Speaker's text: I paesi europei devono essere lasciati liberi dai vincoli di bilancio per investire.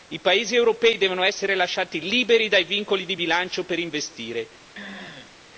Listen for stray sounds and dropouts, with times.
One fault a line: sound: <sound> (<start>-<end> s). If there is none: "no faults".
sound: throat clearing (4.7-5.3 s)